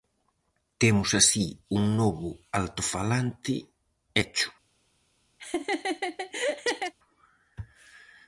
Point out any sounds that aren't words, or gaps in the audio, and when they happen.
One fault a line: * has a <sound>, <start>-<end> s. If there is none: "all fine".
* has a laugh, 5.4-6.9 s